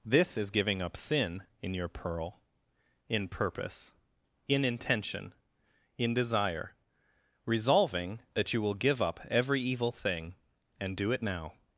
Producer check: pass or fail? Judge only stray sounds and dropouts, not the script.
pass